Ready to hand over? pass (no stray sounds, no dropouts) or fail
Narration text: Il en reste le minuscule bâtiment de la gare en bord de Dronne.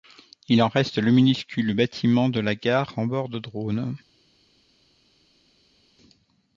pass